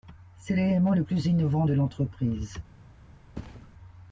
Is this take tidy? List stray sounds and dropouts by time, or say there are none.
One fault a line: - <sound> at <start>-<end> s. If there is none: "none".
- thud at 3.3-3.7 s